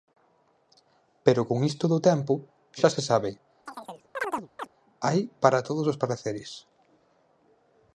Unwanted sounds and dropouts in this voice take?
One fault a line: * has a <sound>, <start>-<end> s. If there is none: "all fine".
* has a chirp, 3.7-4.7 s